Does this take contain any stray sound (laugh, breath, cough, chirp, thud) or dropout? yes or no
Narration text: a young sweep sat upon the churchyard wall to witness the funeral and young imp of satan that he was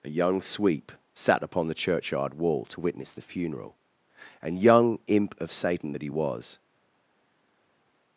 no